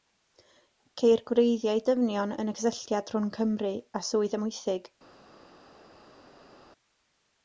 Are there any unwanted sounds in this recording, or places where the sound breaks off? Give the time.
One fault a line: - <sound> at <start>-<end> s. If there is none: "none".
none